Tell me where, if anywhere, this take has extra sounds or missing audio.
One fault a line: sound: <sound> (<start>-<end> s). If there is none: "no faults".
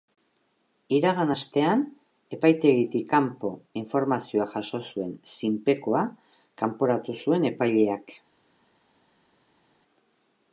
no faults